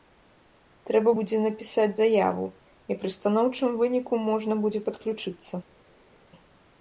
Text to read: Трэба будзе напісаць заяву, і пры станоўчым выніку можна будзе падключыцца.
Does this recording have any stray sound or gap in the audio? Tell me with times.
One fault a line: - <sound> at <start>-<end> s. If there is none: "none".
none